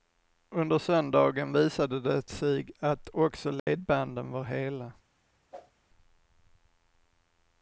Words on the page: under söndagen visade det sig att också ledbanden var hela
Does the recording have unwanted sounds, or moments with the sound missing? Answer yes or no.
yes